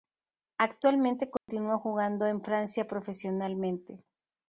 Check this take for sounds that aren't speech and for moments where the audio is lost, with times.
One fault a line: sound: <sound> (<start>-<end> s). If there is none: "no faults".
sound: dropout (1.4-1.5 s)